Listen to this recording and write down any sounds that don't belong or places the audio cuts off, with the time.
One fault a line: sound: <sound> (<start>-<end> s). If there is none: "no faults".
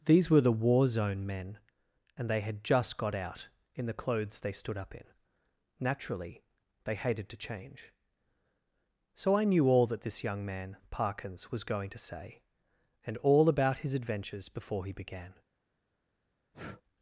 sound: breath (16.5-16.8 s)